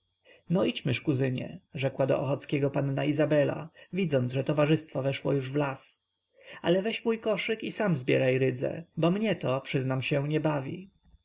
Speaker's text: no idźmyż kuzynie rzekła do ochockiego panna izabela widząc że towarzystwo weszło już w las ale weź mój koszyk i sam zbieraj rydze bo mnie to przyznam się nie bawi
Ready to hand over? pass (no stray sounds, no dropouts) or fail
pass